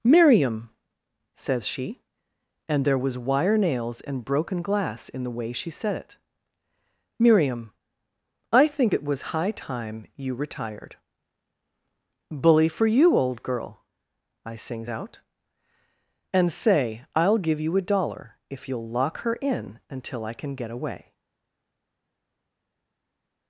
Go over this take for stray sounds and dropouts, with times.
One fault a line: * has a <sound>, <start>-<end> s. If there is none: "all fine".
all fine